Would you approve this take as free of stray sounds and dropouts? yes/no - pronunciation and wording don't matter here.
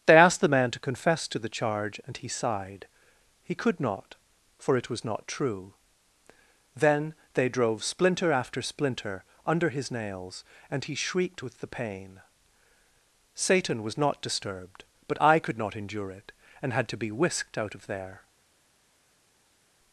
yes